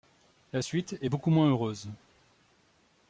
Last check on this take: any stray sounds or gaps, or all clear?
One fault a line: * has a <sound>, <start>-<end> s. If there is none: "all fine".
all fine